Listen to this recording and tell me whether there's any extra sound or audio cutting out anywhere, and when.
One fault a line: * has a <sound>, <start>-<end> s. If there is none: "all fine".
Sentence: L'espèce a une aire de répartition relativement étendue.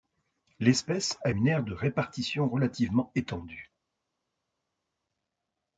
all fine